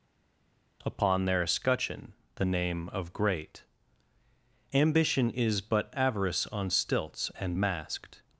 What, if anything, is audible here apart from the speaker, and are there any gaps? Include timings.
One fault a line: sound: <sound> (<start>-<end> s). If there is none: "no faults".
no faults